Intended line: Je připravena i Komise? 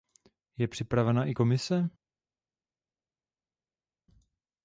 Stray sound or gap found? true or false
false